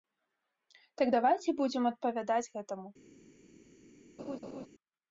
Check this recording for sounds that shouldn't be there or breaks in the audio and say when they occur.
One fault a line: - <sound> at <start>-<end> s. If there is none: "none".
- laugh at 4.2-4.7 s